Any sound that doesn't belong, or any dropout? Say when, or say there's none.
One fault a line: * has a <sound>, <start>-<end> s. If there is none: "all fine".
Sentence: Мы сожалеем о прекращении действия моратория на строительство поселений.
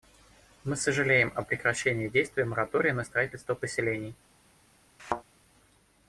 * has a thud, 5.0-5.2 s